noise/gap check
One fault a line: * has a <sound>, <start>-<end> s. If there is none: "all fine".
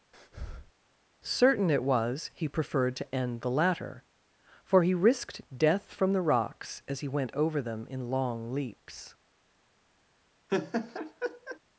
* has a breath, 0.1-0.7 s
* has a laugh, 10.5-11.6 s